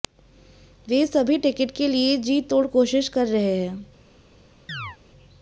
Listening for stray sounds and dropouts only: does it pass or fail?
fail